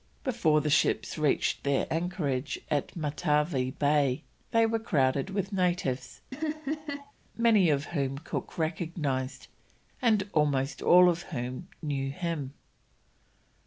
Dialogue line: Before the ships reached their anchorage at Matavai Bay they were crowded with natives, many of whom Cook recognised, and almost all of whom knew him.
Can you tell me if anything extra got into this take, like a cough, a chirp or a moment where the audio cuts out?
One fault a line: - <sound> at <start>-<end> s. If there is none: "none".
- laugh at 6.3-7.1 s